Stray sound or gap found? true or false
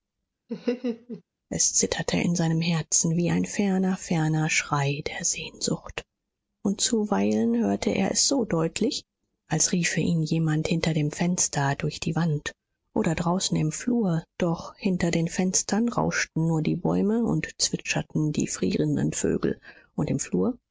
true